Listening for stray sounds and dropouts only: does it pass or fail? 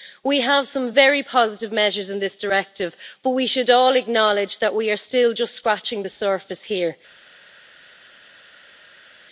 pass